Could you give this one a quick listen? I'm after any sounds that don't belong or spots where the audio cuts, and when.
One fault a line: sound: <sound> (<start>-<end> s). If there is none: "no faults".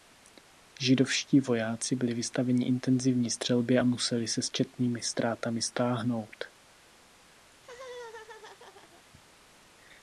sound: laugh (7.5-9.0 s)